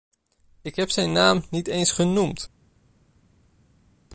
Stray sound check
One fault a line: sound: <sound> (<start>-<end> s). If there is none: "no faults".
no faults